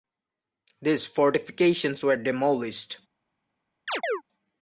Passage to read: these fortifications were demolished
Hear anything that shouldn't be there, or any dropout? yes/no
yes